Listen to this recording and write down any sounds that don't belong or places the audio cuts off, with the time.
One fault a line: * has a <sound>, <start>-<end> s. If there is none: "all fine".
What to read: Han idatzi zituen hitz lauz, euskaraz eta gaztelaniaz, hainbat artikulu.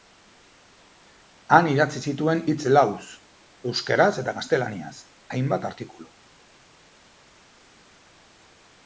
all fine